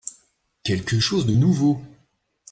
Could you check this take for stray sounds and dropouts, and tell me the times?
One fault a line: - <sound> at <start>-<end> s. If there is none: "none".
none